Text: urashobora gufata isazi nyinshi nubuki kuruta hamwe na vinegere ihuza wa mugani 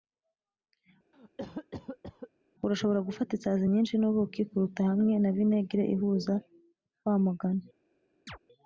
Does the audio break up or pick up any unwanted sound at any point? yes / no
yes